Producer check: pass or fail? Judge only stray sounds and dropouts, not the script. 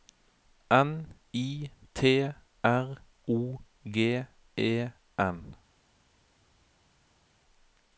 pass